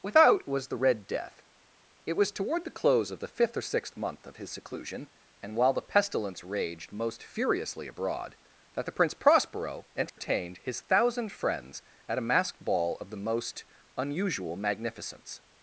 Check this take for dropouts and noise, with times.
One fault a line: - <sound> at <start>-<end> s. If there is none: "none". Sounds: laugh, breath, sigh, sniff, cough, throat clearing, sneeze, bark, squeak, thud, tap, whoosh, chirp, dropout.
- dropout at 10.1-10.2 s